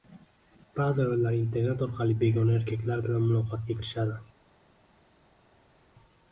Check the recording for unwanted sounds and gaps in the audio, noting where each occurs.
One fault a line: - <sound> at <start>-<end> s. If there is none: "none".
none